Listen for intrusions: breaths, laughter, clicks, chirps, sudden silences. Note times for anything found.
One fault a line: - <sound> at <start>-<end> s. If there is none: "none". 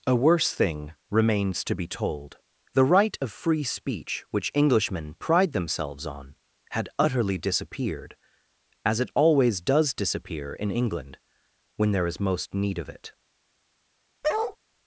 - bark at 14.2-14.6 s